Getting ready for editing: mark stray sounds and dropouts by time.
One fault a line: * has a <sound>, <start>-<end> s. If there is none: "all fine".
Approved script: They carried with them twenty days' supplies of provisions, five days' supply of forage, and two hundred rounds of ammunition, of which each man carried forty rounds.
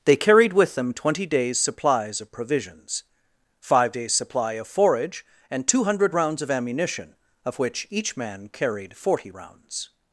all fine